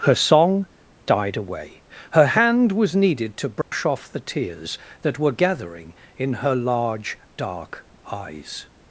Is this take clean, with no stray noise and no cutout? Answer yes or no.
no